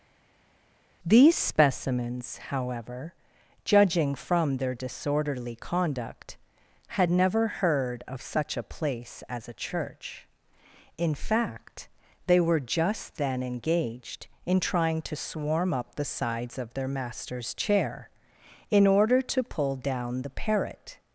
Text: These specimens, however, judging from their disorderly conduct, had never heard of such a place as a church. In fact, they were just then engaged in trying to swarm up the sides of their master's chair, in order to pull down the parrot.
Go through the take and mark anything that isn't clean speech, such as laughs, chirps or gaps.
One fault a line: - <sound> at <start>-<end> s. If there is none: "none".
none